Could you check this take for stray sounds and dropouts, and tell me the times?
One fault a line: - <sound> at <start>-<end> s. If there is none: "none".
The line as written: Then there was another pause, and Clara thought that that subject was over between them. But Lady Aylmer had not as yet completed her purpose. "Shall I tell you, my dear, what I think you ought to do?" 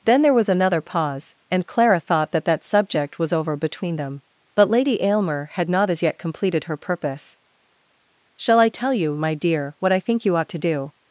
none